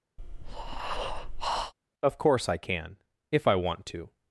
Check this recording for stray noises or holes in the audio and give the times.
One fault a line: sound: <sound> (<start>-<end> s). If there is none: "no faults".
sound: breath (0.2-1.7 s)